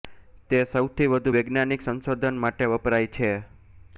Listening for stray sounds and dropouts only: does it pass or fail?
pass